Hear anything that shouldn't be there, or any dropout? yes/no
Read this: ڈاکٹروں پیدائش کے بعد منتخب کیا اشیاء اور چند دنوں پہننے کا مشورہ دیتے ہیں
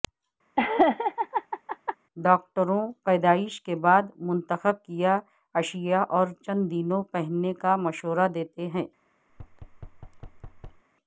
yes